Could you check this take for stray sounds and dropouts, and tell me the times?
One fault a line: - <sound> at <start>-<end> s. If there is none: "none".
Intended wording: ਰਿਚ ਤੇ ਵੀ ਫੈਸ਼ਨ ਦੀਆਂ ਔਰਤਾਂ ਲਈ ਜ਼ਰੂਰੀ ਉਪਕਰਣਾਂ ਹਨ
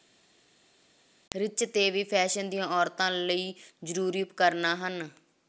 none